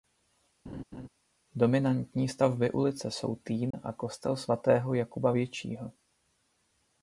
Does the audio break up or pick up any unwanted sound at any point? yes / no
yes